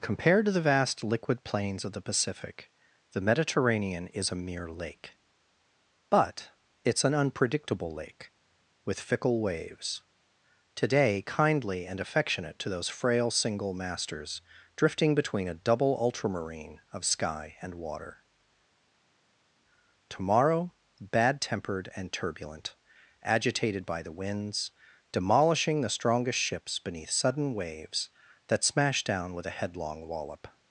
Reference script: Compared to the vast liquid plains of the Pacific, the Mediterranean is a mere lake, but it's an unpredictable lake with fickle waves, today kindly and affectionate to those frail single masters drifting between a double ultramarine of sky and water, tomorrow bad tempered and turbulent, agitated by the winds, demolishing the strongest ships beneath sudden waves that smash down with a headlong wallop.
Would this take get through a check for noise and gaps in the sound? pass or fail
pass